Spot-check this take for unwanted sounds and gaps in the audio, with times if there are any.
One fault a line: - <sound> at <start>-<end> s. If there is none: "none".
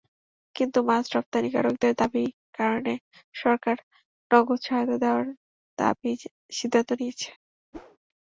- whoosh at 7.7-8.0 s